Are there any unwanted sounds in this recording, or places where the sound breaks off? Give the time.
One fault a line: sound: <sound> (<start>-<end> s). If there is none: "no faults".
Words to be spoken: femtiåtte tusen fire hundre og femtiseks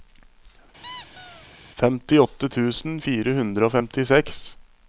sound: squeak (0.8-1.5 s)